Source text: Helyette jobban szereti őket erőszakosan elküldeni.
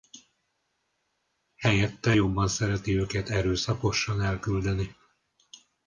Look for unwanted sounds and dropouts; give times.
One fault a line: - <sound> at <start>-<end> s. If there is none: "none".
none